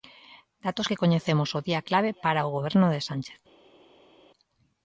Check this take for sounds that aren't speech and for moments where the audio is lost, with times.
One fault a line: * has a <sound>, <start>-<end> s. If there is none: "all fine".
all fine